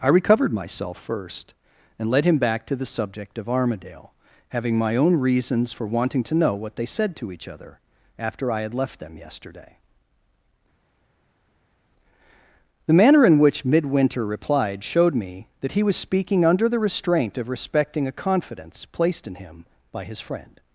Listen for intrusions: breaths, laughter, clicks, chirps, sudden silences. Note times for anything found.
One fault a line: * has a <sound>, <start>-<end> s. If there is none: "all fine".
all fine